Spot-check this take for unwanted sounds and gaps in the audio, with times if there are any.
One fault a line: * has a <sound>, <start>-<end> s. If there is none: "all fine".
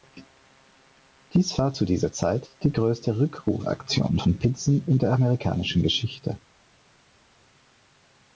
all fine